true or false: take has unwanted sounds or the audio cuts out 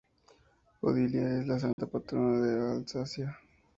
true